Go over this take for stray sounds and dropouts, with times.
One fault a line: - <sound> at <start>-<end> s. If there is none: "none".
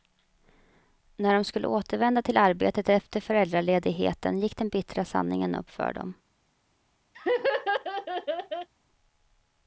- laugh at 7.1-8.7 s